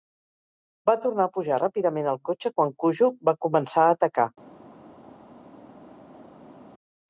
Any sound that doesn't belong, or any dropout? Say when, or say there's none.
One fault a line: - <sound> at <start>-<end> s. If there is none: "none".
none